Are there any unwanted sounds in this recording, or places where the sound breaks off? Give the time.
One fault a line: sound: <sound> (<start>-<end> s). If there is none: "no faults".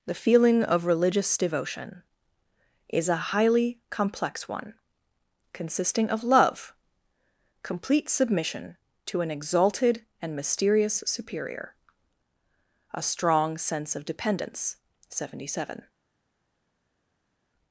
no faults